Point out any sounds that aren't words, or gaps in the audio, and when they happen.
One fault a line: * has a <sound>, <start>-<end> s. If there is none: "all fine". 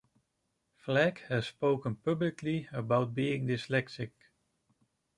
all fine